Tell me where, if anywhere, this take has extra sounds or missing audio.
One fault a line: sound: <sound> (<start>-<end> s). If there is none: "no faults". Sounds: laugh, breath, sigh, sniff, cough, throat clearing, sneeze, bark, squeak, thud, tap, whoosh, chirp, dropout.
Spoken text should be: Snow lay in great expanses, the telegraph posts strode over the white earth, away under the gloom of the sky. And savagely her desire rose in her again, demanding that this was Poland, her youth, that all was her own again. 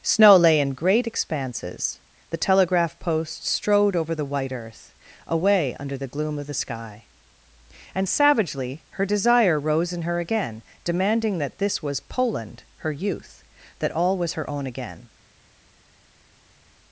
no faults